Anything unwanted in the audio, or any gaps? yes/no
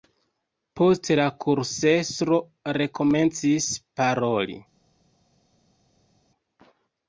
no